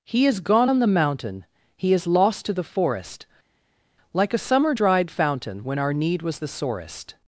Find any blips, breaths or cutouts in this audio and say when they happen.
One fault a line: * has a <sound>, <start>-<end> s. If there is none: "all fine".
all fine